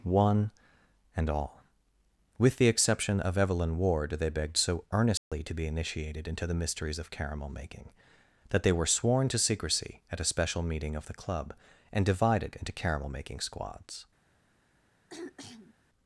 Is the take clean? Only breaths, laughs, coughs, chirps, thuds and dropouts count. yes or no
no